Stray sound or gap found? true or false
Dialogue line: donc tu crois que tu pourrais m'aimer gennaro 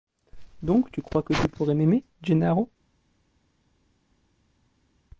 false